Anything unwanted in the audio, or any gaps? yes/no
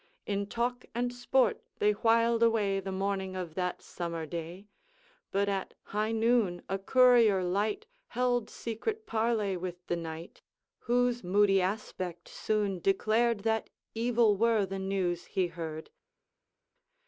no